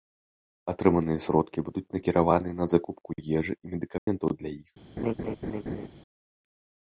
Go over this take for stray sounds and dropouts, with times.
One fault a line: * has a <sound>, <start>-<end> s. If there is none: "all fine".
* has a dropout, 4.0-4.1 s
* has a laugh, 5.0-5.9 s